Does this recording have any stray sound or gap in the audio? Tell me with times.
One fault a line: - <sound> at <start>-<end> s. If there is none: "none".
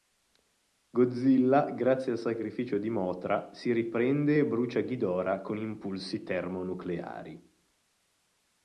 none